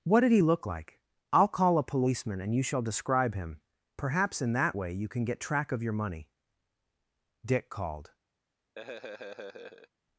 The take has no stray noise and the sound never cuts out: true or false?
false